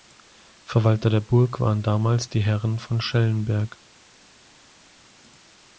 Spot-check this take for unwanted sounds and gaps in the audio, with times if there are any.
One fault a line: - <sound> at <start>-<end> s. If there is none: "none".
none